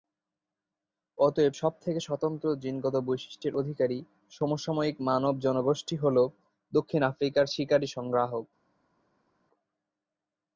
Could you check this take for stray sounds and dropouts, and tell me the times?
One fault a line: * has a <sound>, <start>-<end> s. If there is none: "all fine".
all fine